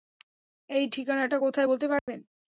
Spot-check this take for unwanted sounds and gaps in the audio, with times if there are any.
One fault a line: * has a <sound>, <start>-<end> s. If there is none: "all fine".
* has a dropout, 2.0-2.1 s